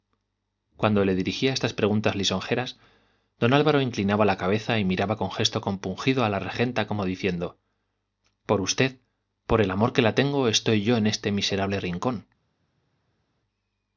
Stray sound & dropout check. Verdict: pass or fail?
pass